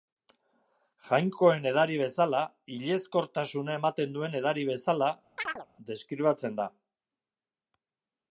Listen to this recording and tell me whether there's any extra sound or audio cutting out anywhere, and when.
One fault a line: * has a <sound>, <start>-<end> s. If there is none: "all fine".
* has a chirp, 5.4-5.7 s